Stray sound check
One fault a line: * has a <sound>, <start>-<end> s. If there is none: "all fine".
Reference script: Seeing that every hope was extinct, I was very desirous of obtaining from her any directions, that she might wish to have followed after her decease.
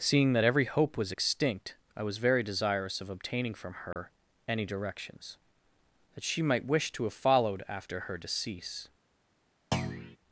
* has a dropout, 3.9-4.0 s
* has a thud, 9.7-10.2 s